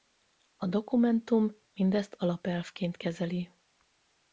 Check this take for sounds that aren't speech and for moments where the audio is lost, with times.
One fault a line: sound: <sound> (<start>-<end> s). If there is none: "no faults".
no faults